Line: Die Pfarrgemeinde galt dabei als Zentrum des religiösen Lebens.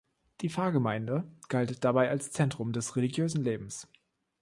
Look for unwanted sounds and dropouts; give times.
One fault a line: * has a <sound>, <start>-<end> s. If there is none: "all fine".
all fine